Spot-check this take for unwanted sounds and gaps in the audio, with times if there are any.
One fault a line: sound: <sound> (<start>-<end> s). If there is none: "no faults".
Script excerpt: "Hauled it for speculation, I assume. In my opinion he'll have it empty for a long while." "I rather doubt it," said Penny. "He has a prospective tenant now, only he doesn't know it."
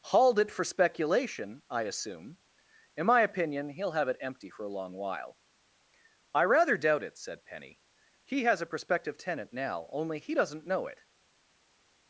no faults